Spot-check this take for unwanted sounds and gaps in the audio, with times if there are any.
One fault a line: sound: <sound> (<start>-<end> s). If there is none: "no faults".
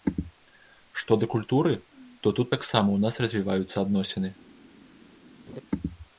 sound: laugh (5.5-5.6 s)